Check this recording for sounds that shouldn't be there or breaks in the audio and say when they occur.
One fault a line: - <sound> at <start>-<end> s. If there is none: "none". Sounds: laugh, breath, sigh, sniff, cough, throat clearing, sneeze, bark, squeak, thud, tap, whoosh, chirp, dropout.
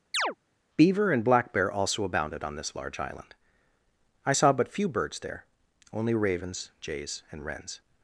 - chirp at 0.1-0.4 s